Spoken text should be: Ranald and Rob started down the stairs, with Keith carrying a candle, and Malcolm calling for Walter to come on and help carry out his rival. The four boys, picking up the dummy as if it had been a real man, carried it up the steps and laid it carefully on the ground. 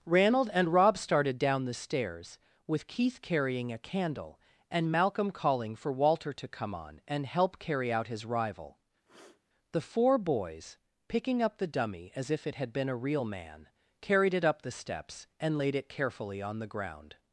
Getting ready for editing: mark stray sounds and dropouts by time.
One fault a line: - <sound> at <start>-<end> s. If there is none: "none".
- sniff at 9.1-9.4 s